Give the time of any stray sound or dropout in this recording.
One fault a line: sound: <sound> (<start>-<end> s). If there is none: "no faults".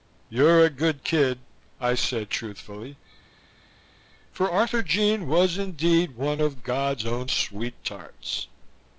no faults